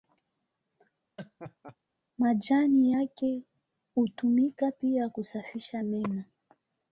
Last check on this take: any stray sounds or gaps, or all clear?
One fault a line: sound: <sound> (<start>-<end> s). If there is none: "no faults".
sound: laugh (1.2-1.8 s)